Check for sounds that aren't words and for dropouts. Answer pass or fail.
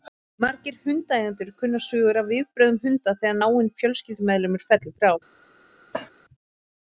fail